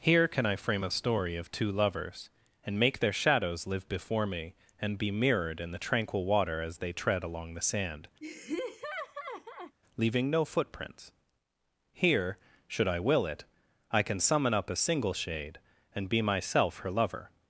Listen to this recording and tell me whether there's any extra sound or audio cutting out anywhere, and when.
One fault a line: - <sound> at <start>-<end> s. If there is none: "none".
- laugh at 8.2-9.8 s